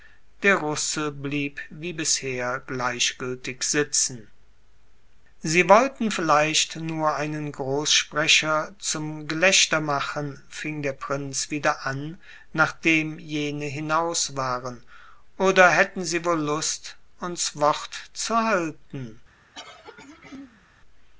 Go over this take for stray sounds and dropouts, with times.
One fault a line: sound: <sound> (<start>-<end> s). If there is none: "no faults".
sound: throat clearing (19.5-20.7 s)